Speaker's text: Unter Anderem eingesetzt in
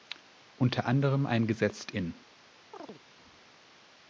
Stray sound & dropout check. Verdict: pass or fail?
fail